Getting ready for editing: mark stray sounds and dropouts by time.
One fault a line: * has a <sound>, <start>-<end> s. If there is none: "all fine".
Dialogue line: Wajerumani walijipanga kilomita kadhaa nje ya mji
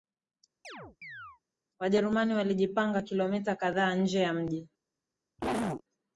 * has a chirp, 0.6-1.4 s
* has a cough, 5.4-5.8 s